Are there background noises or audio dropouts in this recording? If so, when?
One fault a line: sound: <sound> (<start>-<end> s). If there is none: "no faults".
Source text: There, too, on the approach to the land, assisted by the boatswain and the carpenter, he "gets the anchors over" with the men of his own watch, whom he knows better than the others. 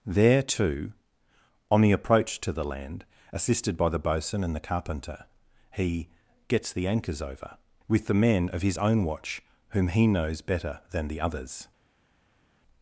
no faults